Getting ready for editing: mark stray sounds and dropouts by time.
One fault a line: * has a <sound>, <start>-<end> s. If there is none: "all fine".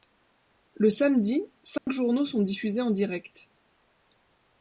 * has a dropout, 1.8-1.9 s